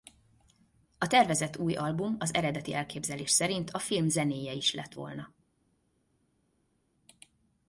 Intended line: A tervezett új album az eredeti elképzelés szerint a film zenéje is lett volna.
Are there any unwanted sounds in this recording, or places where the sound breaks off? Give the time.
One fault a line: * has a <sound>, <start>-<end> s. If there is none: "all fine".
all fine